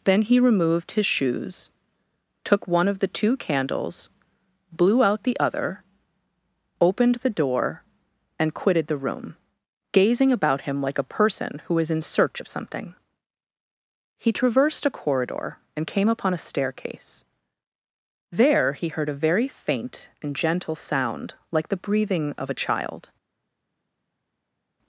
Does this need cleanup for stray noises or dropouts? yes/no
no